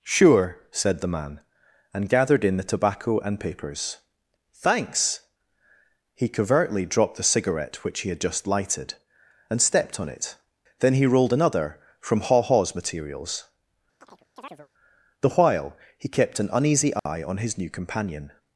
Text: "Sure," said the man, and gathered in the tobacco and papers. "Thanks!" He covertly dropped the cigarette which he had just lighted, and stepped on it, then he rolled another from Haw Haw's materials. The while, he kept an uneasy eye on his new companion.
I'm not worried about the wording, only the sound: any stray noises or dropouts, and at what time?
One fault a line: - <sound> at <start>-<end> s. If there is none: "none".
- chirp at 14.0-14.7 s
- dropout at 17.0-17.1 s